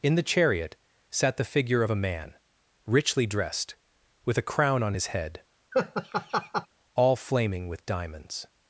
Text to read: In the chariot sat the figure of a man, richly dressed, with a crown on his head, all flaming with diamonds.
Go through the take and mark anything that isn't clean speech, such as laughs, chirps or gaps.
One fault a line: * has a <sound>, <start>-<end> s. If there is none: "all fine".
* has a laugh, 5.7-6.7 s